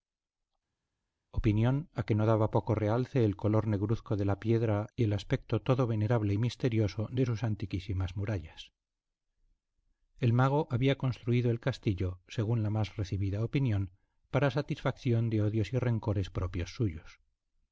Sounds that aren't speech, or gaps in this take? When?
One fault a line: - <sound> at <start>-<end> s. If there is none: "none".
none